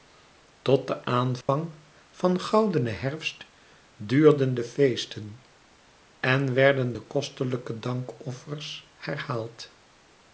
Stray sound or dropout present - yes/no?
yes